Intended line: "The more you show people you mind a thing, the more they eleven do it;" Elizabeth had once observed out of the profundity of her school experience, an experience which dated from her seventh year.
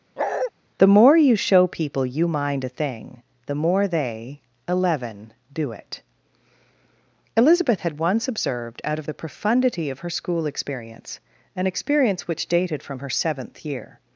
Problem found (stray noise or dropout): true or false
true